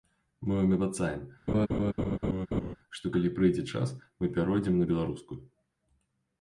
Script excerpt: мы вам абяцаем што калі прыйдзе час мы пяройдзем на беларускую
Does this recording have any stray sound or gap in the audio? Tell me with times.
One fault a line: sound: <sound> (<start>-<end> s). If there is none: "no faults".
sound: laugh (1.5-2.8 s)